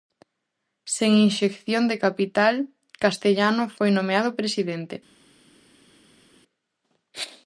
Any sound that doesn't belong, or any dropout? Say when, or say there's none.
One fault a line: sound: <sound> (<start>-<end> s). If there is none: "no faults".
no faults